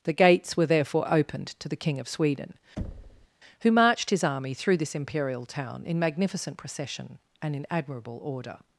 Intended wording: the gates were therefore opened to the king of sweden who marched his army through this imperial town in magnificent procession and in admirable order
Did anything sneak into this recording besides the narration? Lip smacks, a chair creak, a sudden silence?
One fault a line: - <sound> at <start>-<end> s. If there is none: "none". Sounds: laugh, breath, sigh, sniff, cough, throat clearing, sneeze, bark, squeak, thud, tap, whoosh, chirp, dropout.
- thud at 2.8-3.3 s